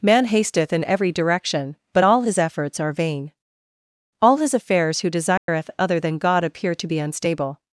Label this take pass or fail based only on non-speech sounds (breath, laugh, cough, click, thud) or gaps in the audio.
fail